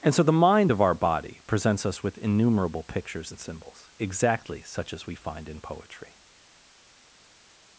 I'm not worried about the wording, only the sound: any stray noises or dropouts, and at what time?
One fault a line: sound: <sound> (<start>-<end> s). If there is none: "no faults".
no faults